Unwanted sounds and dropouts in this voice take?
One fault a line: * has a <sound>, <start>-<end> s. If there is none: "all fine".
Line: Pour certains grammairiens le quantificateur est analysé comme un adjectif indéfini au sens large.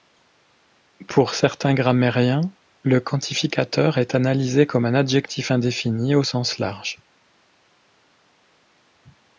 all fine